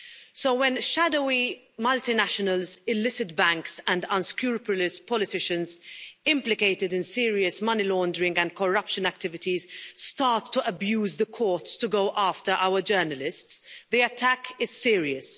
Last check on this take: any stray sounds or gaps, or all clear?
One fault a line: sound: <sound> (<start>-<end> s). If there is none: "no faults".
no faults